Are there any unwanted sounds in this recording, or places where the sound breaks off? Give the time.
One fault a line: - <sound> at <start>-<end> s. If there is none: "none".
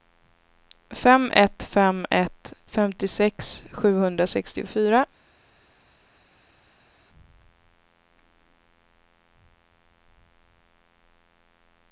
none